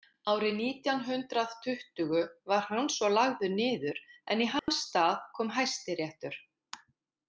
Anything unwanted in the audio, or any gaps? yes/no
yes